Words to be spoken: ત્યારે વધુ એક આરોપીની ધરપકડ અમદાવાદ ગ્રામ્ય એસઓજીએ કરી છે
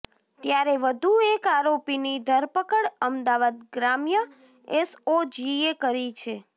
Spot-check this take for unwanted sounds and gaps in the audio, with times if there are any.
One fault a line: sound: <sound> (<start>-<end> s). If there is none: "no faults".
no faults